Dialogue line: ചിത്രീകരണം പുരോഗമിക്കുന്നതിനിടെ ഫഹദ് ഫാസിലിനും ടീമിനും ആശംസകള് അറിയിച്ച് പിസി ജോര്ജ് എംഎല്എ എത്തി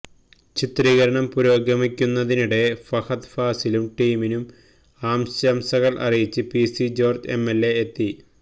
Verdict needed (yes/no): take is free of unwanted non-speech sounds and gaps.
yes